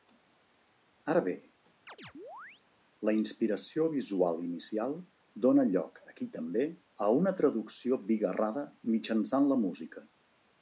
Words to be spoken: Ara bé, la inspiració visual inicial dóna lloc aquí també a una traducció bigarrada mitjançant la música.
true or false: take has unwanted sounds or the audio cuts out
true